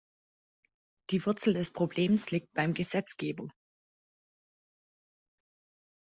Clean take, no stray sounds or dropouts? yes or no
yes